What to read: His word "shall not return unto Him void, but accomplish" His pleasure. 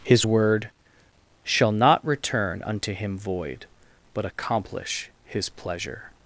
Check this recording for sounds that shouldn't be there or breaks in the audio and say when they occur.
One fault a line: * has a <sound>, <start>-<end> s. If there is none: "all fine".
all fine